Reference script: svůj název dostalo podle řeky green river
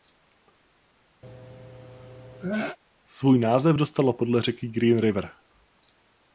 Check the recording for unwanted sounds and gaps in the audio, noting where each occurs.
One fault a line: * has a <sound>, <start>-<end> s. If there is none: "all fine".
* has a sneeze, 1.2-2.8 s